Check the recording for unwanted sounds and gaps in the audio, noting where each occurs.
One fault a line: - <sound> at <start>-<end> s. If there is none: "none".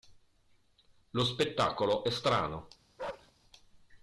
- bark at 3.0-3.3 s